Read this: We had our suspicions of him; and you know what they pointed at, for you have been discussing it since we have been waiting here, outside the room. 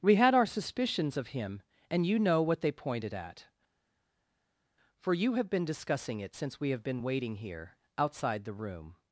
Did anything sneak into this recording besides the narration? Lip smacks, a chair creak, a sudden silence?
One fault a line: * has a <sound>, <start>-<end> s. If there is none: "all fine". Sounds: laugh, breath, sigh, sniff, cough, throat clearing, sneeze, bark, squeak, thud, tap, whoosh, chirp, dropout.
all fine